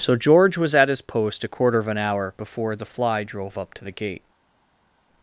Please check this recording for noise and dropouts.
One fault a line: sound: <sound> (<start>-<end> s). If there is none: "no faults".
no faults